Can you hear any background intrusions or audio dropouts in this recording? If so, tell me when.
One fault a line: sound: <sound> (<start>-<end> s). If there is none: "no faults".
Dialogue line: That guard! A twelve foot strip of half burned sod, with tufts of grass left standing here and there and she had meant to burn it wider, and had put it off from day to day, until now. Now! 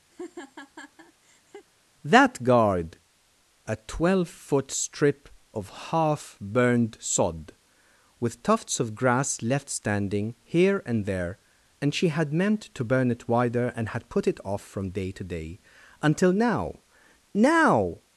sound: laugh (0.1-1.7 s)